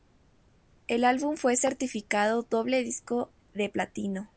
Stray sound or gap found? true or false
false